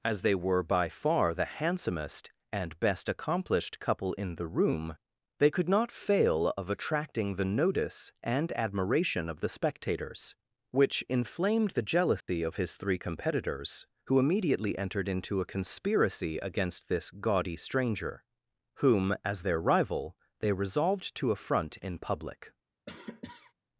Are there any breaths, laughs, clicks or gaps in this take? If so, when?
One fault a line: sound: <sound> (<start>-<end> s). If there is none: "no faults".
sound: dropout (12.2-12.3 s)
sound: cough (22.9-23.5 s)